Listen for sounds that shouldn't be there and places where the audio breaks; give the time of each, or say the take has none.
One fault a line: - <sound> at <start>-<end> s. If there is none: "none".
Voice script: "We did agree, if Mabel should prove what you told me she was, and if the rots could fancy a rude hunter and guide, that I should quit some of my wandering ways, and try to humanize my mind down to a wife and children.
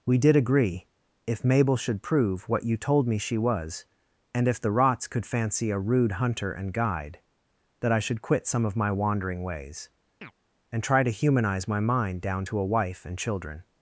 - chirp at 10.2-10.3 s